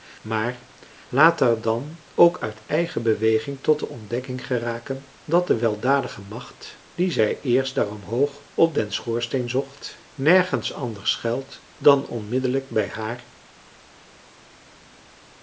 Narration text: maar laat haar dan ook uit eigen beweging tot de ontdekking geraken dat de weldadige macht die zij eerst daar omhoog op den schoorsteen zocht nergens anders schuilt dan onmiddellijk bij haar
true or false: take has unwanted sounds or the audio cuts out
false